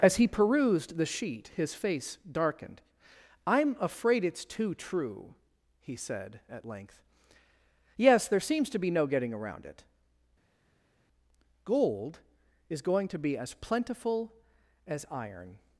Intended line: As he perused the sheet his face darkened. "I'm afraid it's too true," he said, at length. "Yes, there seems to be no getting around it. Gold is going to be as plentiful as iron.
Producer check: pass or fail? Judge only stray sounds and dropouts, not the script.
pass